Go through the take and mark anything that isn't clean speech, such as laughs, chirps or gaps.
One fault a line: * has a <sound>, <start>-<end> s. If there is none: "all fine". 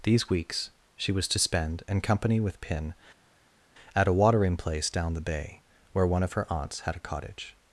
all fine